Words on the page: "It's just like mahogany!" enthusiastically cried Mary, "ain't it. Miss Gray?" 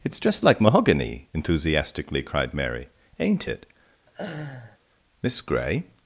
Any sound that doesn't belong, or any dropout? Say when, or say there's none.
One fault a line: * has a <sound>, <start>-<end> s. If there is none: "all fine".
* has a laugh, 4.1-4.8 s